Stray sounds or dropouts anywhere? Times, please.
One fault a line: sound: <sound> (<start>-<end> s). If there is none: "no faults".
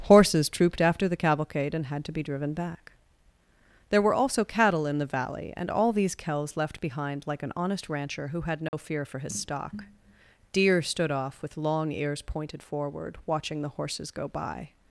sound: dropout (8.7-8.7 s)